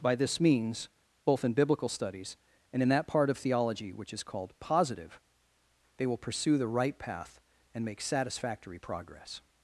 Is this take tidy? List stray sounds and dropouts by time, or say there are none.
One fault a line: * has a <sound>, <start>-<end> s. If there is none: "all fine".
all fine